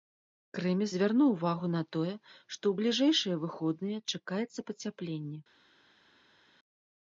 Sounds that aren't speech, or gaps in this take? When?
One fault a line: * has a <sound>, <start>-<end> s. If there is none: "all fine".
all fine